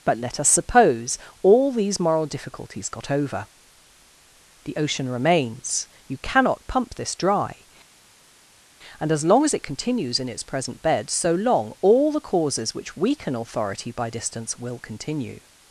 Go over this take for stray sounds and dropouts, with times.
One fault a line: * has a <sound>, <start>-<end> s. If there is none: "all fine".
all fine